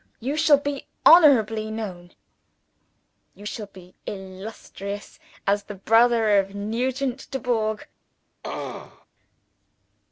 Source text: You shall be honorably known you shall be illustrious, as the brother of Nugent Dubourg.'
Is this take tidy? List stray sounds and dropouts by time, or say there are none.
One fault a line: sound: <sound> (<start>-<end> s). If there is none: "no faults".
sound: throat clearing (8.4-9.1 s)